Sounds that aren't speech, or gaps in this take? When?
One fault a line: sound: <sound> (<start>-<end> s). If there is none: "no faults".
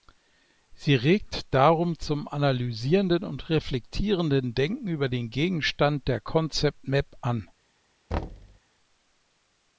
sound: thud (8.1-8.6 s)